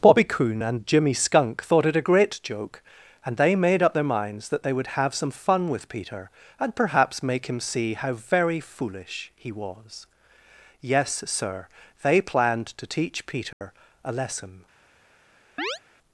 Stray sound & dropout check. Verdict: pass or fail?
fail